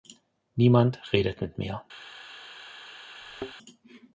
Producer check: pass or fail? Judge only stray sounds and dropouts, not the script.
fail